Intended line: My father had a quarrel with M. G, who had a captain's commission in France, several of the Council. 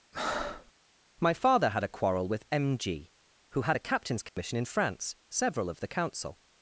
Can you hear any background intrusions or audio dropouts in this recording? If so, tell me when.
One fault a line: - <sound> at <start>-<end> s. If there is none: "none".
- breath at 0.1-0.7 s
- dropout at 4.3-4.4 s